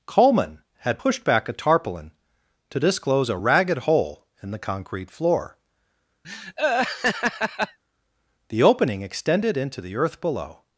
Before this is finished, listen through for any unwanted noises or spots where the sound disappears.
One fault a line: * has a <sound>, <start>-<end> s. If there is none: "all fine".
* has a laugh, 6.2-7.8 s